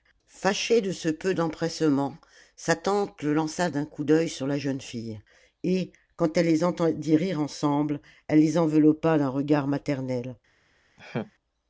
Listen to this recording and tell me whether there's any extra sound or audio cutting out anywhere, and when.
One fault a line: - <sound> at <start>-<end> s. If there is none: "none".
- laugh at 11.0-11.3 s